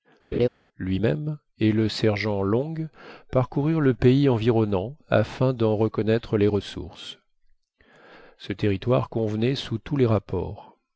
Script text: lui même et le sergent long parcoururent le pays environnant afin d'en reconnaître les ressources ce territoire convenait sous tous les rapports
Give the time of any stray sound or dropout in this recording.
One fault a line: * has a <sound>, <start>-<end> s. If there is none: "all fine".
* has a laugh, 0.3-0.5 s